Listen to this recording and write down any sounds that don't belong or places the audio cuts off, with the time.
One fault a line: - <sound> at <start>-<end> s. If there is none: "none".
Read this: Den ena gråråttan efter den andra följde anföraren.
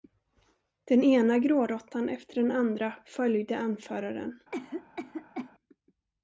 - cough at 4.5-5.5 s